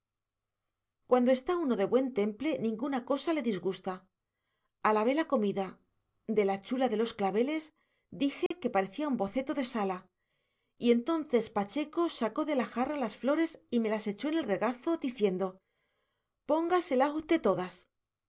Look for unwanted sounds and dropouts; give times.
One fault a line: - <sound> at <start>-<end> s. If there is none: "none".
- dropout at 8.5-8.5 s